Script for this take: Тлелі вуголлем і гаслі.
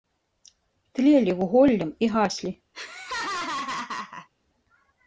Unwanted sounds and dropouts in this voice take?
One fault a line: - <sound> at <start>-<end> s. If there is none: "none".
- laugh at 2.7-4.3 s